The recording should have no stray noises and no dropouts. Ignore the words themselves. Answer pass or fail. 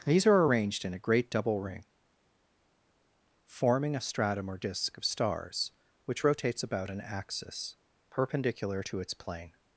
pass